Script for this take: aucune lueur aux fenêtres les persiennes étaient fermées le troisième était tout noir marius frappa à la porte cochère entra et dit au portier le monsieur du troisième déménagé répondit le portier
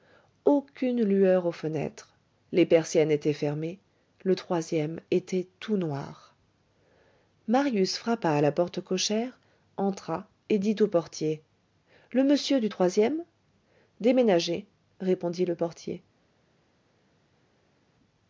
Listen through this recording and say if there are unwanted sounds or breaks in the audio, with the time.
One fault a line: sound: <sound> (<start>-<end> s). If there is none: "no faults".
no faults